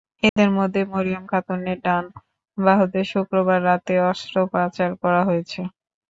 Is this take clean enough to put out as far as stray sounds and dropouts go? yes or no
no